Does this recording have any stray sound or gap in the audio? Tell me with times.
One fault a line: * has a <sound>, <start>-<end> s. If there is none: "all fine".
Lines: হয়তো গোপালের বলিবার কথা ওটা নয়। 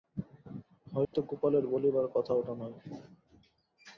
* has a dropout, 1.0-1.1 s